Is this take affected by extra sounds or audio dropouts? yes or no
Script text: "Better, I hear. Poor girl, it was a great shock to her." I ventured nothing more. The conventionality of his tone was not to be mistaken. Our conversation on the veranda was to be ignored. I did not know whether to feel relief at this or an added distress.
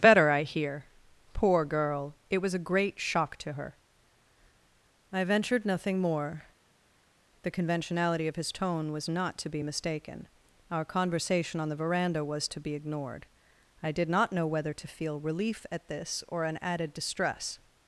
no